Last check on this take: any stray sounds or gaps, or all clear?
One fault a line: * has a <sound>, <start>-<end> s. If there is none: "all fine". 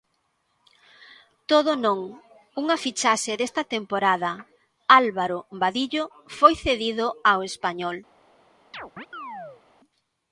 * has a chirp, 8.7-9.6 s